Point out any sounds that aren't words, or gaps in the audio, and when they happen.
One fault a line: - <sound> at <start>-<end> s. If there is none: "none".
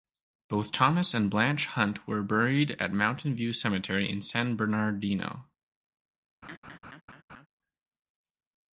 - laugh at 6.4-7.5 s